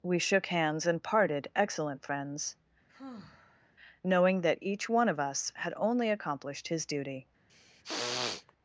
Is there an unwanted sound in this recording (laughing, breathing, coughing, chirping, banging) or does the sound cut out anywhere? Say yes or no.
yes